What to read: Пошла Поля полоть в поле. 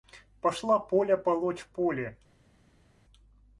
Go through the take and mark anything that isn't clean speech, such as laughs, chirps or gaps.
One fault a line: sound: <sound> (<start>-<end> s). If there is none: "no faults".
no faults